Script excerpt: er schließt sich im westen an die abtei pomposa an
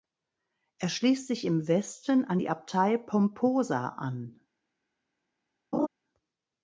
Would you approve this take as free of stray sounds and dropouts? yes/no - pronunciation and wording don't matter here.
no